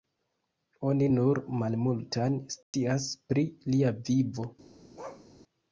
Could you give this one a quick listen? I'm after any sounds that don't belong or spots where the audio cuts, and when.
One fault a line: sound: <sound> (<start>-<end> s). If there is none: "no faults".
sound: dropout (2.6-2.7 s)
sound: bark (5.0-5.3 s)